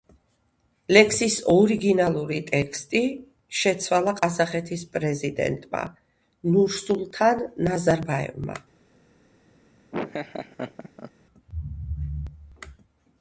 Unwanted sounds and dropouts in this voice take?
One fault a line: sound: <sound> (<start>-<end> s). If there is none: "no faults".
sound: laugh (9.9-11.1 s)